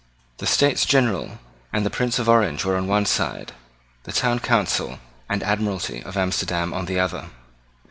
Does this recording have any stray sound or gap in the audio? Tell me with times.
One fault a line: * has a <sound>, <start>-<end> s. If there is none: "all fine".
all fine